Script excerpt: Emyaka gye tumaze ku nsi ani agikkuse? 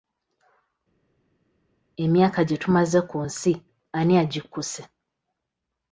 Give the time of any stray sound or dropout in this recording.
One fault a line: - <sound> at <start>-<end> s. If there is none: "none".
none